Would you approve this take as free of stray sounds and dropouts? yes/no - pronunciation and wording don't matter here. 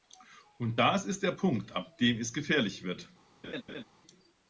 no